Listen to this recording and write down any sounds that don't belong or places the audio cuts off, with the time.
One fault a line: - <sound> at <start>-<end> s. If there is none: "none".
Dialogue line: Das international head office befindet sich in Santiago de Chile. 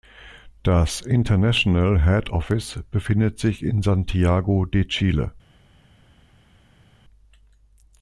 none